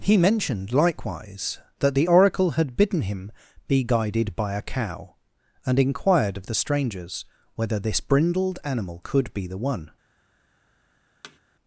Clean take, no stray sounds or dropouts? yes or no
no